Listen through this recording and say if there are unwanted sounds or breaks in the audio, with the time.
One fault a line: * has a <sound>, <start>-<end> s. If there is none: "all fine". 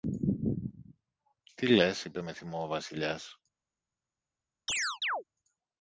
* has a chirp, 4.7-5.2 s